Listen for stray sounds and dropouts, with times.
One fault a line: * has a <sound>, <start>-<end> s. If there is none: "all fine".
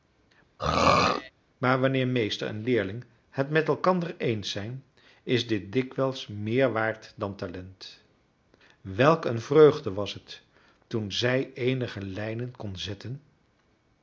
* has a throat clearing, 0.6-1.3 s